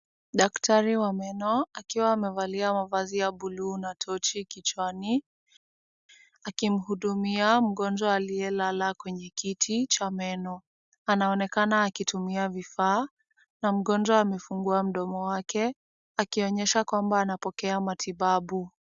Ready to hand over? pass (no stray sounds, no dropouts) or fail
pass